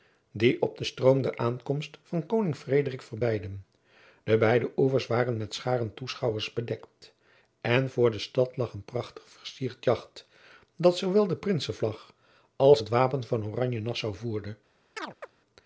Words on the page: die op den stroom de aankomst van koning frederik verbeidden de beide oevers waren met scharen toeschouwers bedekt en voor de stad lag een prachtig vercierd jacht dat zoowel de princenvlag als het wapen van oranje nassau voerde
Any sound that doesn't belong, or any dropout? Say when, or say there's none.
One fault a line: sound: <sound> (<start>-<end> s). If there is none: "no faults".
sound: chirp (15.0-15.3 s)